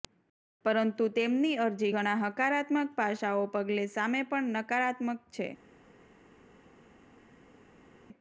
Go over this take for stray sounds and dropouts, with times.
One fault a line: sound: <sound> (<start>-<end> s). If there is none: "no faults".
no faults